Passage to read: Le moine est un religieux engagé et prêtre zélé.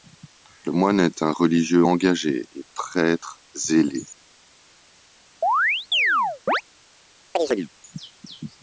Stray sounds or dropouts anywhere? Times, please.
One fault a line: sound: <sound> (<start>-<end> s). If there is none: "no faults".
sound: chirp (5.4-6.6 s)
sound: chirp (7.3-7.7 s)